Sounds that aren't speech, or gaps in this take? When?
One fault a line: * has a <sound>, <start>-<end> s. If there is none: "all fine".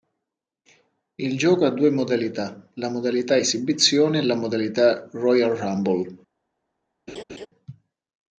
* has a laugh, 7.1-7.5 s